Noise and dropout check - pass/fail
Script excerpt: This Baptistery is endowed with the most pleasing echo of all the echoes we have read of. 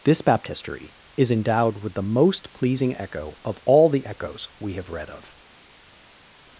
pass